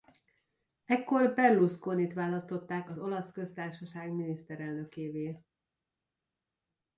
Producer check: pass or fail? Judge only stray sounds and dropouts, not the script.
pass